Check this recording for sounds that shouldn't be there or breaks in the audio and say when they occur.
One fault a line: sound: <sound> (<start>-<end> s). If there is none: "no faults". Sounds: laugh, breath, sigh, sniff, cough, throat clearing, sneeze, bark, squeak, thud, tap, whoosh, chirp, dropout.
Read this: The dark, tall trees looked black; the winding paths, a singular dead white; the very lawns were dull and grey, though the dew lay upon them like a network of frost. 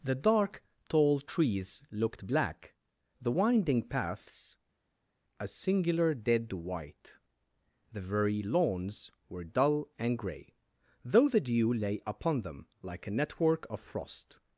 no faults